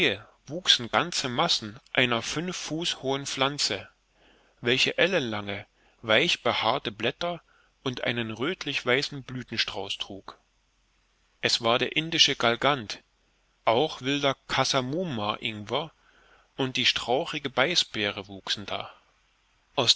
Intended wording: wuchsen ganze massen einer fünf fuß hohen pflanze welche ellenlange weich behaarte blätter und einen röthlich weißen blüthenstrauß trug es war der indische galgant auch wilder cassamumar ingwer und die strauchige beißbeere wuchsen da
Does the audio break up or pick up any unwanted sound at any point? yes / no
no